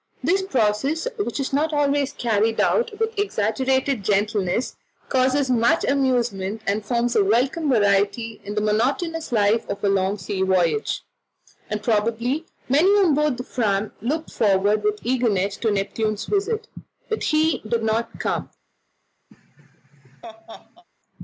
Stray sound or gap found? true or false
true